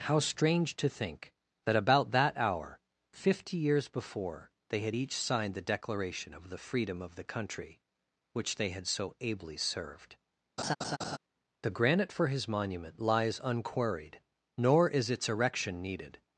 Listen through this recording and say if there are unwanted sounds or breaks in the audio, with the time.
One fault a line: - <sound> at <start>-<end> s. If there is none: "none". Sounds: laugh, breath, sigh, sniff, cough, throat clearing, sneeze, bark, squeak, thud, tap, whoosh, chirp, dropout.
- laugh at 10.6-11.2 s